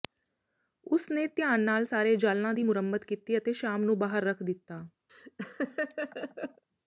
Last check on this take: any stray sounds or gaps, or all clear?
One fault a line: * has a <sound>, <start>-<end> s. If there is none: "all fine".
* has a laugh, 5.1-6.6 s